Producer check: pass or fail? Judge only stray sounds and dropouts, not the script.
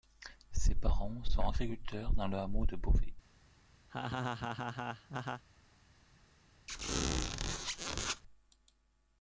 fail